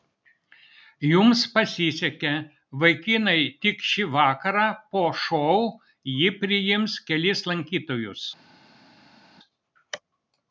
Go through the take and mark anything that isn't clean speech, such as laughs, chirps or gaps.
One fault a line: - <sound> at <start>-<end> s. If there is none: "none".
none